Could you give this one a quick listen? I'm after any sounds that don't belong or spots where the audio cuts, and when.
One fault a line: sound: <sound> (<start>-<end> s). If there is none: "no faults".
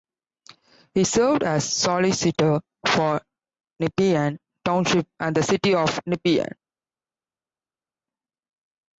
no faults